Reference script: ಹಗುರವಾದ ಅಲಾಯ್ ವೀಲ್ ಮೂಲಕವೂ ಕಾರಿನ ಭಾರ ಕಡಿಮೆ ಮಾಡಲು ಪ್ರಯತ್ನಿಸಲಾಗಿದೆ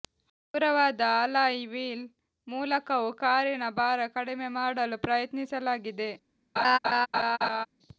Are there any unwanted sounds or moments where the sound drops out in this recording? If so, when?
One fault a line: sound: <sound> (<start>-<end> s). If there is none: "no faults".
sound: laugh (6.6-7.7 s)